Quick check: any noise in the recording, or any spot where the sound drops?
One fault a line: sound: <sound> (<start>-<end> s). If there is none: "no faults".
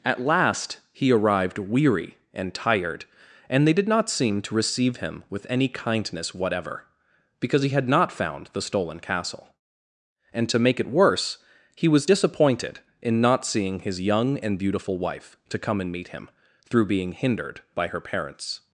no faults